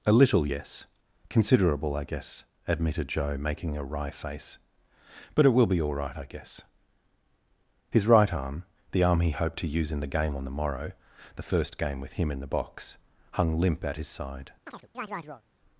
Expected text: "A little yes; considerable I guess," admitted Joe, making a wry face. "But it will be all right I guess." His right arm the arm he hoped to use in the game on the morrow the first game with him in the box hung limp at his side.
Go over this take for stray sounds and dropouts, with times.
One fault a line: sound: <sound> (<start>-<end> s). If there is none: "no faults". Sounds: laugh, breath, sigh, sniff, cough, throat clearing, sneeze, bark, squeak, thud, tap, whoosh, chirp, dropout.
sound: chirp (14.7-15.4 s)